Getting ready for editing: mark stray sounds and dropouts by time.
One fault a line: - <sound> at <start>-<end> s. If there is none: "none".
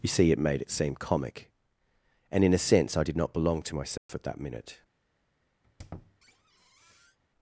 - dropout at 4.0-4.1 s
- squeak at 5.6-7.2 s